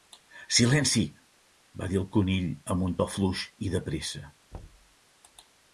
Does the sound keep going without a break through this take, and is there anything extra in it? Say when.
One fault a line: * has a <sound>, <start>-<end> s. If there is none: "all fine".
* has a thud, 4.5-5.0 s